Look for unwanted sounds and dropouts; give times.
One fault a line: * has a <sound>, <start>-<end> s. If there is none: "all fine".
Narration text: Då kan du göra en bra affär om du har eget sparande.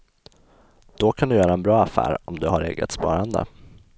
all fine